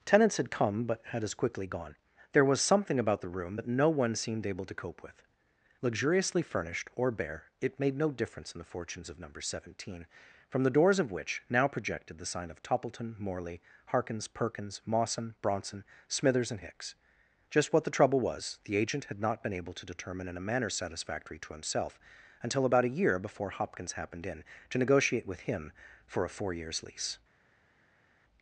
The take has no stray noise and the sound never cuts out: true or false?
true